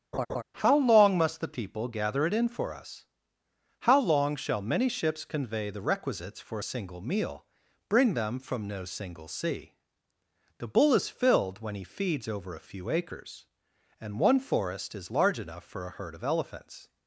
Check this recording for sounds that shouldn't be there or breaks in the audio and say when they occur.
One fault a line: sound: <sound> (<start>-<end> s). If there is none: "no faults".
sound: laugh (0.1-0.4 s)